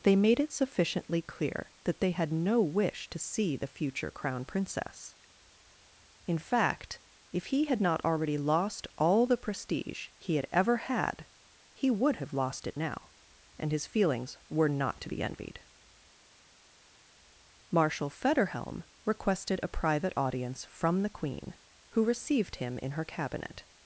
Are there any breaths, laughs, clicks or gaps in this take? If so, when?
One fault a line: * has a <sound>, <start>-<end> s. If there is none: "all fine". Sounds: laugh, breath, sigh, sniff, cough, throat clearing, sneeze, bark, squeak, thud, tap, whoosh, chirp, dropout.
all fine